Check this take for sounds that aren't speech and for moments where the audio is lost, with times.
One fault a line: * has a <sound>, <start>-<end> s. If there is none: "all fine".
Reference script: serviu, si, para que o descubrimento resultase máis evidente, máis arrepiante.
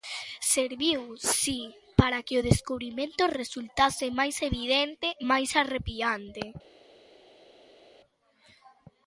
all fine